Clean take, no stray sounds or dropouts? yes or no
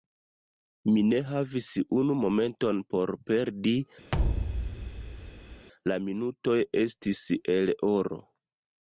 no